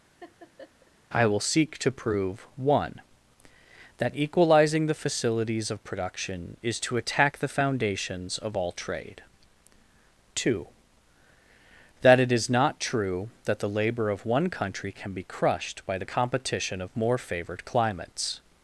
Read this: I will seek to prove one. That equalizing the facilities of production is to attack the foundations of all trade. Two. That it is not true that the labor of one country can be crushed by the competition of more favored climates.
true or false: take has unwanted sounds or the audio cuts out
true